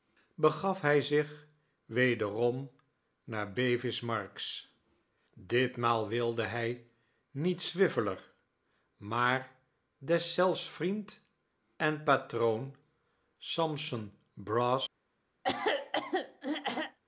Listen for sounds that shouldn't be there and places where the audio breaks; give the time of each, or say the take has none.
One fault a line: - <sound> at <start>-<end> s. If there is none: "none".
- throat clearing at 15.4-17.0 s